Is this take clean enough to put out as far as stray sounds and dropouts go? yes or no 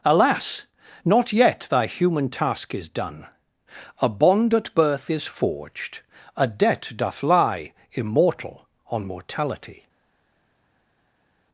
yes